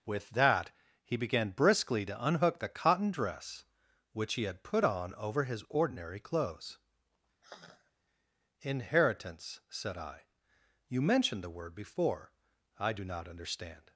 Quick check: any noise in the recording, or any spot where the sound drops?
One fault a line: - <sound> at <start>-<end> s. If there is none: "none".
- sigh at 7.4-7.9 s